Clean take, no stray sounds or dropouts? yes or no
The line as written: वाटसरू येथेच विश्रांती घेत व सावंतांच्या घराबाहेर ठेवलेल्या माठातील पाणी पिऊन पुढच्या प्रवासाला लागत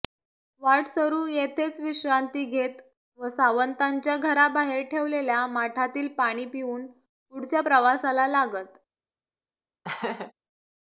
no